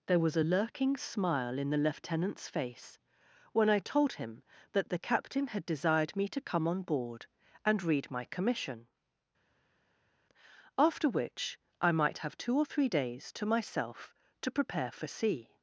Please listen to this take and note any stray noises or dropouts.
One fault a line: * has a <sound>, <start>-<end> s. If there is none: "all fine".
all fine